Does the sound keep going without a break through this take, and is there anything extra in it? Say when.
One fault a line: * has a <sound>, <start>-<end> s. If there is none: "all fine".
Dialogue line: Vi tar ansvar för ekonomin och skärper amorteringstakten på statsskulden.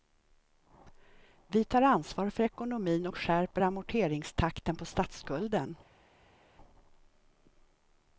all fine